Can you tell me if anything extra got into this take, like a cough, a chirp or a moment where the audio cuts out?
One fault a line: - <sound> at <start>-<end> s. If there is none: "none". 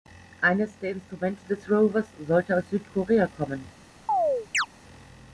- chirp at 4.1-4.7 s